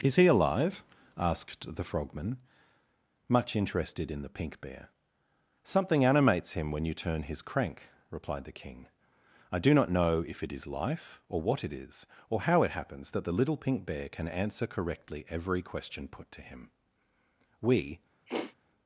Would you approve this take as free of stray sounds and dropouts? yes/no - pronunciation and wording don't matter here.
no